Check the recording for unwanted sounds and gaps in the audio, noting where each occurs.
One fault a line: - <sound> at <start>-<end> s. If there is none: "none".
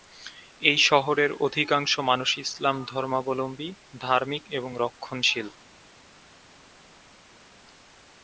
none